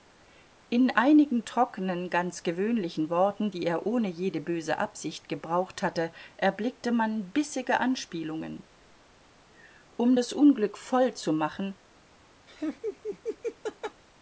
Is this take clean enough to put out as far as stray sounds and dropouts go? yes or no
no